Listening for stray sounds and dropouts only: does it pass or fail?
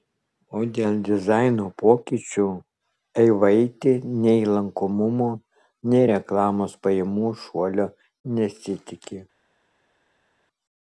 pass